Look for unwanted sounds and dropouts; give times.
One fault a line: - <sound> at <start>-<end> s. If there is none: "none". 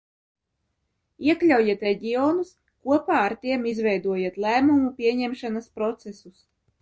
none